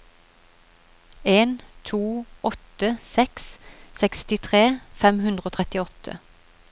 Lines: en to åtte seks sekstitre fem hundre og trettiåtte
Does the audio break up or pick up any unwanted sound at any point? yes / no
no